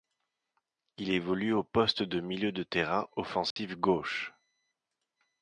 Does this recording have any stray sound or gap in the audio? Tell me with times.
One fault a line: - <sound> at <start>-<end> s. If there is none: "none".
- dropout at 3.5-3.6 s